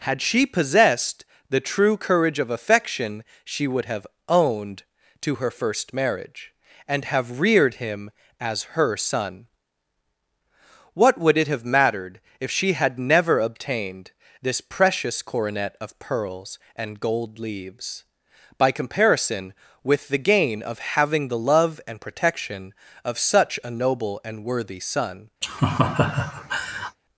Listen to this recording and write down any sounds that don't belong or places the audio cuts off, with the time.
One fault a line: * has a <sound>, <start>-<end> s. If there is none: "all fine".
* has a laugh, 25.4-27.0 s